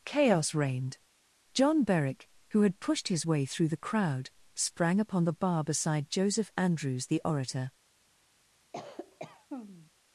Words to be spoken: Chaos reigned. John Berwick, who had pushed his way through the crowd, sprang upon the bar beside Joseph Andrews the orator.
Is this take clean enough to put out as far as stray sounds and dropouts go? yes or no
no